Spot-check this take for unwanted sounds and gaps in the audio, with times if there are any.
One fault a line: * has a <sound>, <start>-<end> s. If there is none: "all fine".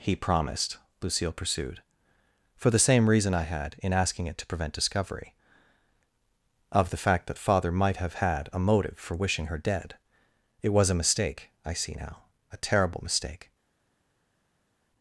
all fine